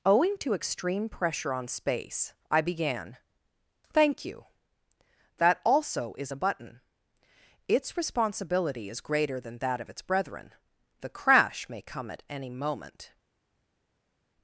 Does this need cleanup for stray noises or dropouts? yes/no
no